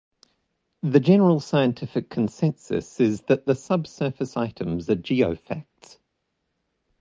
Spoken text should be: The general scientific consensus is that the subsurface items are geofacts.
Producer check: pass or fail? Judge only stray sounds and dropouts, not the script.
pass